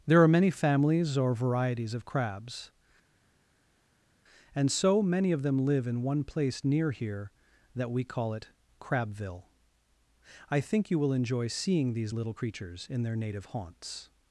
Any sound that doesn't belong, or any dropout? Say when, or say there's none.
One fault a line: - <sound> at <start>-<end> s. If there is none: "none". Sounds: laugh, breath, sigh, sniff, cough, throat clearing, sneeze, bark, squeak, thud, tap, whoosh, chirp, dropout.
none